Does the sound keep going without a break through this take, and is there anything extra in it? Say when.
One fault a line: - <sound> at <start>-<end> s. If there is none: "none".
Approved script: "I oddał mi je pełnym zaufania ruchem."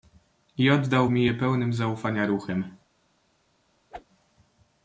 - whoosh at 3.9-4.1 s